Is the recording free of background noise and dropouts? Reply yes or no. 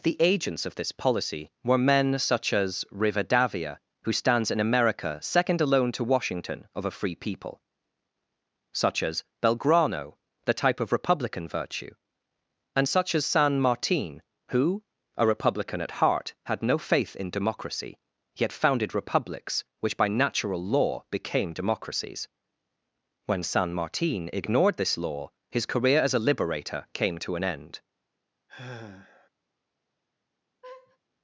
no